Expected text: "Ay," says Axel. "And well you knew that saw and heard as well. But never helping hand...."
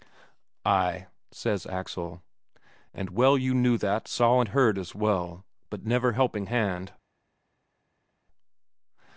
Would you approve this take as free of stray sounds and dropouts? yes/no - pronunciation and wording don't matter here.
yes